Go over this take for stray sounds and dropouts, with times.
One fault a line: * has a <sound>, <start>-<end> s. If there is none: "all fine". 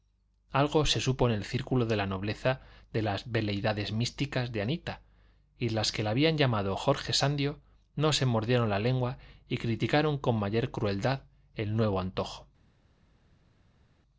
all fine